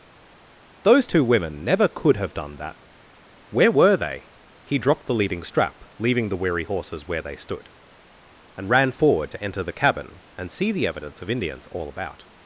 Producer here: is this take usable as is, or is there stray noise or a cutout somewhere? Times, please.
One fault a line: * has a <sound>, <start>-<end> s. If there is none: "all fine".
all fine